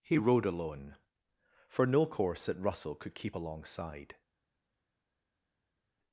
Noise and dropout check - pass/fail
pass